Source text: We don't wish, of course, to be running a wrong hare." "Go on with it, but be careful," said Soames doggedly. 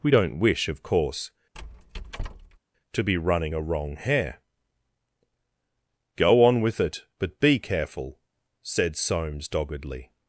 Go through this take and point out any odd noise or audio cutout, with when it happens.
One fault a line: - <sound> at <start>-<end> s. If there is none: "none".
- squeak at 1.5-2.6 s